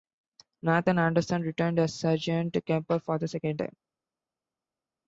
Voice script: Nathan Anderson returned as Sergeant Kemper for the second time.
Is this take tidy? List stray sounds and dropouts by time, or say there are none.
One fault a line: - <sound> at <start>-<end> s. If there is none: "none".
none